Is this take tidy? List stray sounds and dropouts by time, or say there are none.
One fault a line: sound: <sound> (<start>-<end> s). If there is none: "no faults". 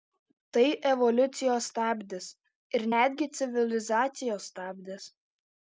no faults